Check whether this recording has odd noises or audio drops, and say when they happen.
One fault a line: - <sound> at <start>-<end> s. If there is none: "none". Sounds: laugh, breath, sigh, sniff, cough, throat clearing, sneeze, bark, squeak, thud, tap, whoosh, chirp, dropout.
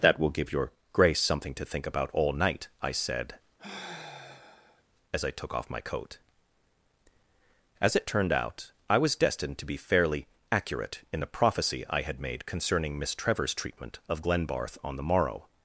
- sigh at 3.6-4.8 s